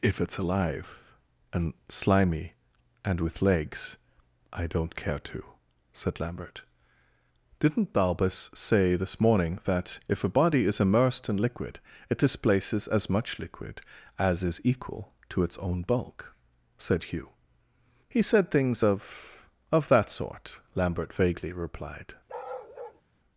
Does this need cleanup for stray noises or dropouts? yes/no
yes